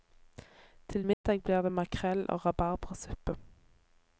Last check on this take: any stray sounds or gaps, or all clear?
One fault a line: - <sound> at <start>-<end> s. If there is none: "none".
- dropout at 1.1-1.2 s